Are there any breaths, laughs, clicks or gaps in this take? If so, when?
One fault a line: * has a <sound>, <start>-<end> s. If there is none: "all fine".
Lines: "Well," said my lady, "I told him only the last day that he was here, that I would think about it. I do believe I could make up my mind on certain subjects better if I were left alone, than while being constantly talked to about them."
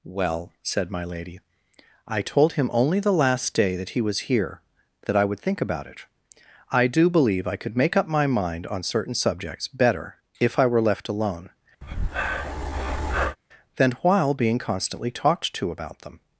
* has a breath, 11.8-13.4 s